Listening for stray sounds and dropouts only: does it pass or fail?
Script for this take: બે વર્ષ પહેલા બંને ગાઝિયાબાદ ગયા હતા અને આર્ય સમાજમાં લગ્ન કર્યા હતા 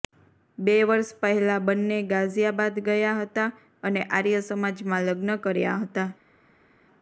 pass